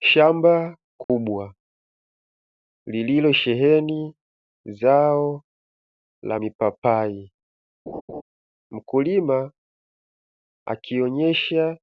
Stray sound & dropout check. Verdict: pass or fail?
fail